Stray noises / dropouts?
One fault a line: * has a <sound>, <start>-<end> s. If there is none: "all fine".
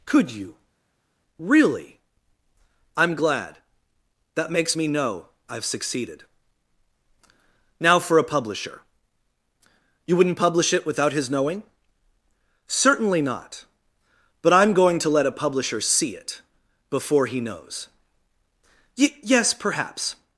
all fine